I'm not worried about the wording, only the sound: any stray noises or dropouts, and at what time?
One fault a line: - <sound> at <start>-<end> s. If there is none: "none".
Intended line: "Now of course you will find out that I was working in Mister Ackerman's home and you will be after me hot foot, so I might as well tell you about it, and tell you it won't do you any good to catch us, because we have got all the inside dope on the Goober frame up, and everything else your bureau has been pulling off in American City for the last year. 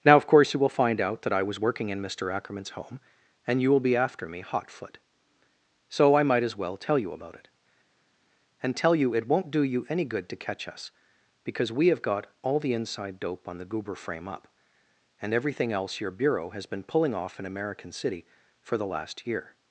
none